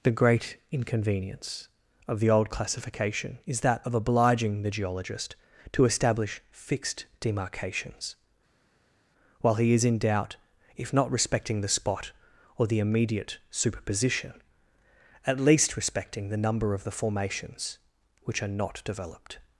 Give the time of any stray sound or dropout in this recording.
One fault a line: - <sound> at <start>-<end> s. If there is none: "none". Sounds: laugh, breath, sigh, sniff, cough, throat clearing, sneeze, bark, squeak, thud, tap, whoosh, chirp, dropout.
none